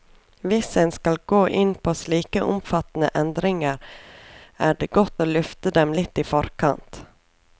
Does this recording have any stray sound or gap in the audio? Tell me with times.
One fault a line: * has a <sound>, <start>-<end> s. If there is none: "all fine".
all fine